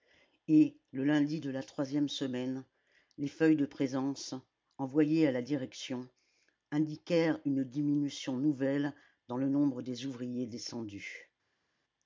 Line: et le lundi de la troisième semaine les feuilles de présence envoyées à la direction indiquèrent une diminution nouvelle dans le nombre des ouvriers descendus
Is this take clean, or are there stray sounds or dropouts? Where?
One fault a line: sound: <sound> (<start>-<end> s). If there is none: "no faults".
no faults